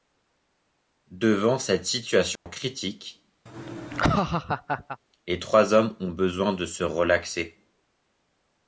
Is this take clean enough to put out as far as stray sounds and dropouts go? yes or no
no